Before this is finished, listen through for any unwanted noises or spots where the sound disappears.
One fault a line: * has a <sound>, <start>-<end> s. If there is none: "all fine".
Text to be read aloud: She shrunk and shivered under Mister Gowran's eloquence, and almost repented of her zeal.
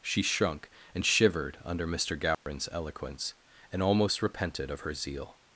* has a dropout, 2.3-2.5 s